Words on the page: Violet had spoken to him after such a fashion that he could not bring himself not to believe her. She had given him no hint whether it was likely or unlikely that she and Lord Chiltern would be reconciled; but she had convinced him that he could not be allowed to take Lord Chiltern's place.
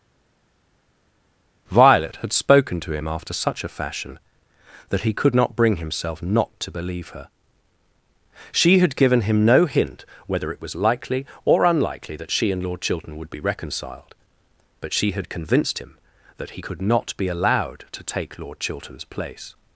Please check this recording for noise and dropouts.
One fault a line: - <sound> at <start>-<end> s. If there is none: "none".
none